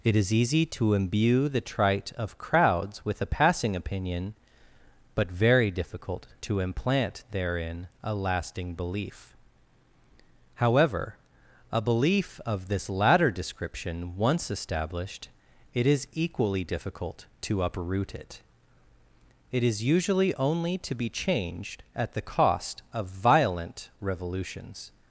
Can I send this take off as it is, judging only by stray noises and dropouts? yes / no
yes